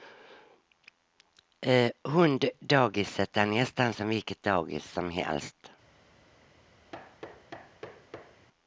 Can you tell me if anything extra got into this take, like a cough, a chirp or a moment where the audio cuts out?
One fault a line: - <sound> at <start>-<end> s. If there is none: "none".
- thud at 6.9-8.5 s